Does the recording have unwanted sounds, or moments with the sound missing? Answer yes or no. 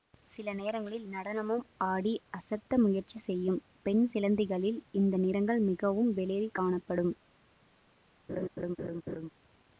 yes